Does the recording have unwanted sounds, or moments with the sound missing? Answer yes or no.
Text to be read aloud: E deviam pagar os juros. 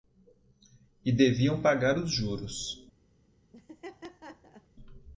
yes